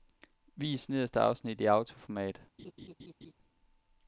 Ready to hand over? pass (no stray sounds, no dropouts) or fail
fail